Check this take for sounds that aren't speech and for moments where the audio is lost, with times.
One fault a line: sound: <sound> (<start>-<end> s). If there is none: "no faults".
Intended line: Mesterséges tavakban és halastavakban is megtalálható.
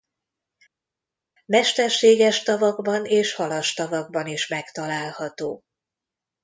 no faults